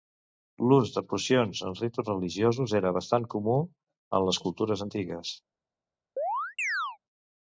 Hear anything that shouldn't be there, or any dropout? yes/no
yes